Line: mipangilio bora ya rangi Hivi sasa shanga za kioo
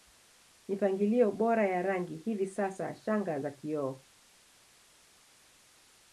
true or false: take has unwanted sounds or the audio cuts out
false